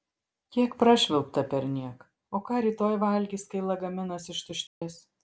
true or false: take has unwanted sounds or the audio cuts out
true